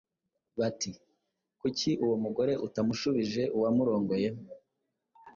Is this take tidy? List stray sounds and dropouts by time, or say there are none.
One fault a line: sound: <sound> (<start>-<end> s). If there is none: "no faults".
no faults